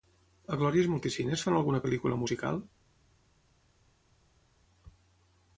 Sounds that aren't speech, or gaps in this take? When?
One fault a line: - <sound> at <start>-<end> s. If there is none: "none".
none